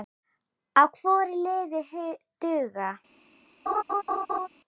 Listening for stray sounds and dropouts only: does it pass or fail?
fail